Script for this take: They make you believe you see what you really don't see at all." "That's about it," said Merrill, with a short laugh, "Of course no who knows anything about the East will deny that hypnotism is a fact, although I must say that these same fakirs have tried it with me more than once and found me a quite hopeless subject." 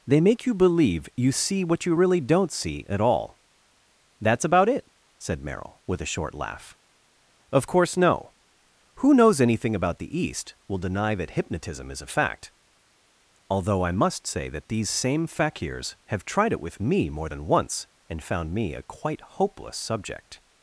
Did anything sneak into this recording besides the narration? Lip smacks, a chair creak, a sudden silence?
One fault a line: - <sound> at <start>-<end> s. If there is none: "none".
none